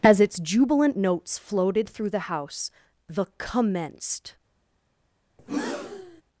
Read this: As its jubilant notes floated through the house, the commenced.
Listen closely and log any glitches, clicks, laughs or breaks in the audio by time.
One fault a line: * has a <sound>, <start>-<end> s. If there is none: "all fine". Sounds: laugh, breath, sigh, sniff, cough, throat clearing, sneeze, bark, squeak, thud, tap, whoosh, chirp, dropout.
* has a breath, 5.4-6.2 s